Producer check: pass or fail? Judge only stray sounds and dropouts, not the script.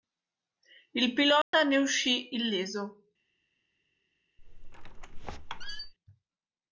fail